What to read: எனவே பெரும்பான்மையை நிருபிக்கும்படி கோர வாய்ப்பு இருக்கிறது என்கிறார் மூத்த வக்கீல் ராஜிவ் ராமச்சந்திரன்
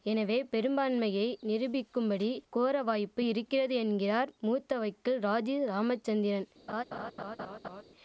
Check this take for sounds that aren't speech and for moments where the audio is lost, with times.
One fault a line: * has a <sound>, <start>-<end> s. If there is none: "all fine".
* has a laugh, 6.7-7.8 s